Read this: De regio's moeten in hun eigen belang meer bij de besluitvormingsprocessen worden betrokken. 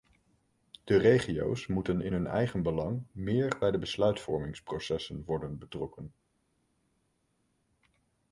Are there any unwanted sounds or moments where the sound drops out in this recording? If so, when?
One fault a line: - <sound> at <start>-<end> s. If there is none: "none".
none